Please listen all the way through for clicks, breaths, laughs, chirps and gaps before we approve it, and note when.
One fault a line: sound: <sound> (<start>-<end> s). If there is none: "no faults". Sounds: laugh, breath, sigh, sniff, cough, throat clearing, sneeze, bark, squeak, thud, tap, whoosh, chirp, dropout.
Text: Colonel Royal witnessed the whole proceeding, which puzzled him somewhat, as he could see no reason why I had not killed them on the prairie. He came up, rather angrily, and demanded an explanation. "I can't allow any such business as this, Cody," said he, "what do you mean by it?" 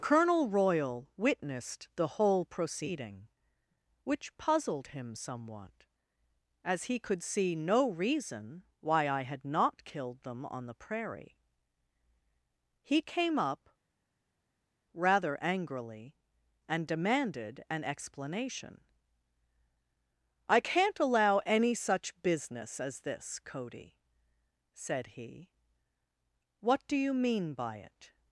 no faults